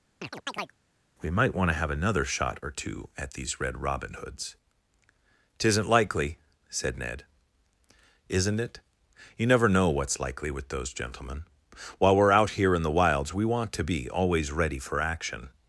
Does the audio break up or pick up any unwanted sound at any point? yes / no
yes